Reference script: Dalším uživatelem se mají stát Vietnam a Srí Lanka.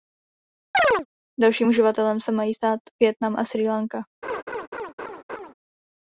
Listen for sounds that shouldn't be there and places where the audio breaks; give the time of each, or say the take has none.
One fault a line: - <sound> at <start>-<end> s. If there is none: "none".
- chirp at 0.7-1.1 s
- laugh at 4.2-5.5 s